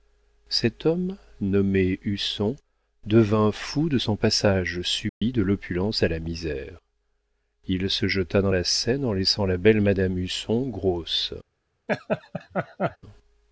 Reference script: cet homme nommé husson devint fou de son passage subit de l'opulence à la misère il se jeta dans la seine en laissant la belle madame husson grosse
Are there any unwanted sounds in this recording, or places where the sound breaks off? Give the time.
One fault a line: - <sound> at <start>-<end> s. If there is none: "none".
- dropout at 5.1-5.2 s
- laugh at 11.9-13.0 s